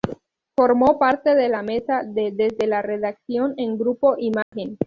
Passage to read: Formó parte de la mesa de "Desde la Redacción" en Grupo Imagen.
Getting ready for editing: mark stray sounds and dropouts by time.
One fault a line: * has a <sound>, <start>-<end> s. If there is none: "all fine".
* has a dropout, 4.4-4.5 s